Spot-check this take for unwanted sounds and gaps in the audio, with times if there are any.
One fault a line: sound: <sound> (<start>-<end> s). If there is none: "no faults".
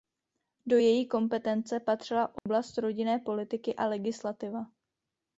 sound: dropout (2.4-2.5 s)